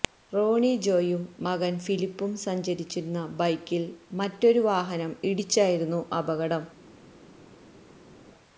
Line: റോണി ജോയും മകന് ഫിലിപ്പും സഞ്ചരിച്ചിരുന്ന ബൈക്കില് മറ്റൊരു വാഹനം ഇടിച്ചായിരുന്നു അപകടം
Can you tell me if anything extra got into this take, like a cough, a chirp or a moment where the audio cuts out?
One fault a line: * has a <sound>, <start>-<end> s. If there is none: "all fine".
all fine